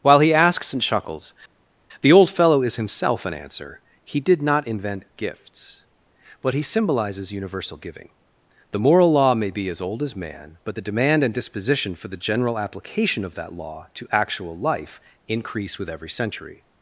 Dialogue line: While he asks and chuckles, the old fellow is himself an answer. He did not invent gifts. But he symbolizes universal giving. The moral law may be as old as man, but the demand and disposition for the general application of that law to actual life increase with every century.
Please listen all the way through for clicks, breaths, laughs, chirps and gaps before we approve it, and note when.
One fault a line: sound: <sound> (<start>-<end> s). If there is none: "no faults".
no faults